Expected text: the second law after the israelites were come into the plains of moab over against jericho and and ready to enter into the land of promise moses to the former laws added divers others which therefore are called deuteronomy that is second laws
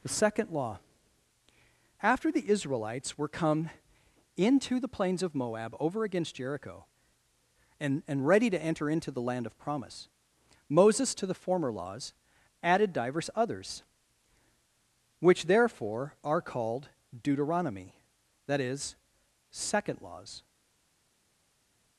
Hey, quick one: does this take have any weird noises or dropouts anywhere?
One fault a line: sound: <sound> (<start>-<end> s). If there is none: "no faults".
no faults